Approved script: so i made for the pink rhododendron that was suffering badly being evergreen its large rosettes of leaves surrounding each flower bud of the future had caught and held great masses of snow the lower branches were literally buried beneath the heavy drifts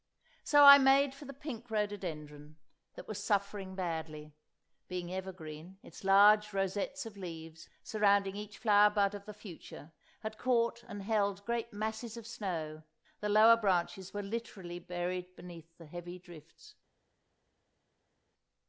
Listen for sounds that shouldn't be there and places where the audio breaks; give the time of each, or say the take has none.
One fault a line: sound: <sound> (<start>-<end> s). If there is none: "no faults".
no faults